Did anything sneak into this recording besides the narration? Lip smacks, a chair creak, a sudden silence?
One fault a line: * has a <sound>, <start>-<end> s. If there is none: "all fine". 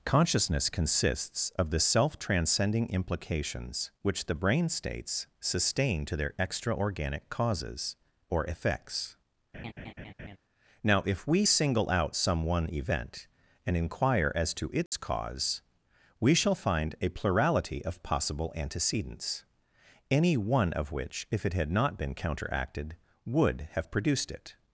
* has a laugh, 9.5-10.4 s
* has a dropout, 14.9-14.9 s